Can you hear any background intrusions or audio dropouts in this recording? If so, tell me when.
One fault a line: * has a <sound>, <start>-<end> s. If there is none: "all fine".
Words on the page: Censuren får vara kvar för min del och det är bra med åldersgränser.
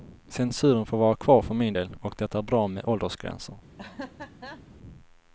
* has a laugh, 3.8-4.6 s